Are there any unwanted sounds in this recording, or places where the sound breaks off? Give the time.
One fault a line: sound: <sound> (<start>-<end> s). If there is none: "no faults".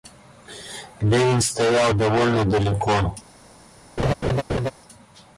sound: laugh (4.0-4.7 s)